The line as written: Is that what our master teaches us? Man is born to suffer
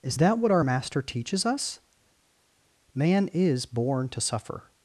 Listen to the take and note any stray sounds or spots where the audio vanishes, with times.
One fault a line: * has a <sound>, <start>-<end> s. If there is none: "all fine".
all fine